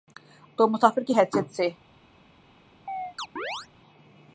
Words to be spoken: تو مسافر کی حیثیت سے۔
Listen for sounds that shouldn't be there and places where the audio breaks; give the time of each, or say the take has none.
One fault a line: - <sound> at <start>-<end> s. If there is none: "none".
- chirp at 2.9-3.7 s